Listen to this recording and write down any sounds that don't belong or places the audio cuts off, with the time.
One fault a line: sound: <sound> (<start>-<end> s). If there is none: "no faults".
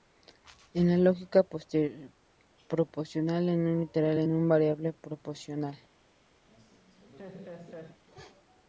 sound: laugh (6.5-8.0 s)